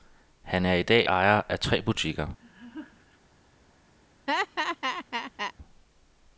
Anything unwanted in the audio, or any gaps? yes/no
yes